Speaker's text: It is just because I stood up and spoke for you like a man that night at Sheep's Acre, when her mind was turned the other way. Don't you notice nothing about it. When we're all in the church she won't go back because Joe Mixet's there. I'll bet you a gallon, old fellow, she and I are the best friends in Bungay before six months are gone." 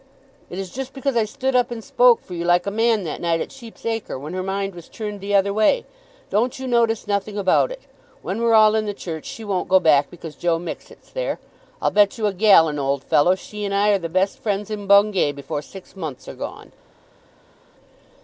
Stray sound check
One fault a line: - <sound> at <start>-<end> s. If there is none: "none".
none